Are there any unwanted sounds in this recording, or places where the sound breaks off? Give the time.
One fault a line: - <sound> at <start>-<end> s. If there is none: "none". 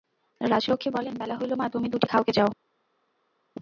none